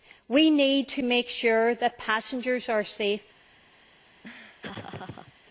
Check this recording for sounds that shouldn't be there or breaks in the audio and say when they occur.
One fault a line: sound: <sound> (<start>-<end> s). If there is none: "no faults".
sound: laugh (4.2-5.3 s)